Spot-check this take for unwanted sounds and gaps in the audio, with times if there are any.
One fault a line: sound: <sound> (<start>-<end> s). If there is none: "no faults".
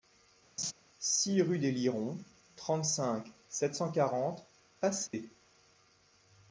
sound: laugh (0.6-0.7 s)
sound: dropout (5.1-5.1 s)